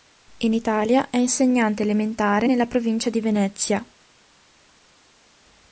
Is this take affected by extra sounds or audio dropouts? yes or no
no